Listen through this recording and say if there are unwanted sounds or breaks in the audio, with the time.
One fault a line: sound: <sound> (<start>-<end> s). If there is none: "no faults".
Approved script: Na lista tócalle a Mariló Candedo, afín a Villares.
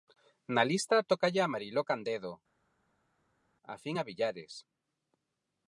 no faults